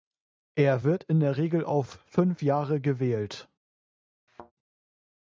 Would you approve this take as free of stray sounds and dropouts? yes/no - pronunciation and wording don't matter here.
no